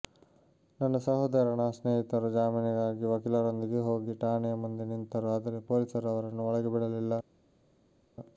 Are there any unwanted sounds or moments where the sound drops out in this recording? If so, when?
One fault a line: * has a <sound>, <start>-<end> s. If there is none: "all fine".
all fine